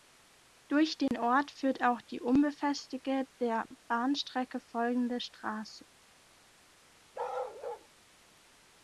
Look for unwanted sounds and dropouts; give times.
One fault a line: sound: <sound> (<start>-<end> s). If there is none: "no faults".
sound: dropout (1.1-1.1 s)
sound: bark (7.1-7.9 s)